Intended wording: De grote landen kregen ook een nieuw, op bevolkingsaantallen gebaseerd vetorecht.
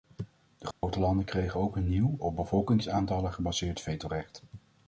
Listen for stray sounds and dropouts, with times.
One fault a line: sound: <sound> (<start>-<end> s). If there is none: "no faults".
sound: dropout (0.7-0.8 s)